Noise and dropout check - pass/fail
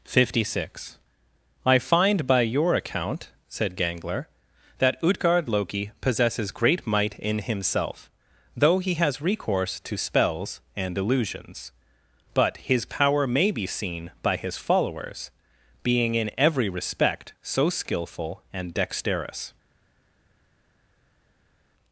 pass